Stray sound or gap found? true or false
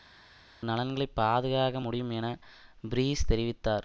false